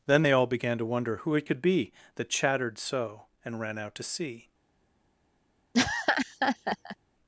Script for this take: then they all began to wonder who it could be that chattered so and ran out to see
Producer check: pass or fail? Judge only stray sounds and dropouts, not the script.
fail